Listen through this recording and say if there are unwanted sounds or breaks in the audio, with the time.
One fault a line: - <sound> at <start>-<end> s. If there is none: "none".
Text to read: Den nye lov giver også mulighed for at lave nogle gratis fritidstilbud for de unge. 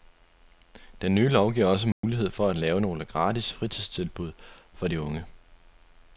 - dropout at 1.9-2.0 s